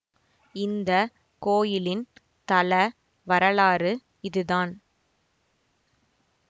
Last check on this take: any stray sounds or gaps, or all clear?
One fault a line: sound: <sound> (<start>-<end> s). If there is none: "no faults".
no faults